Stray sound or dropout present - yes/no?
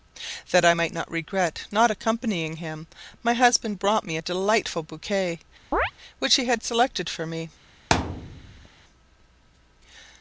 yes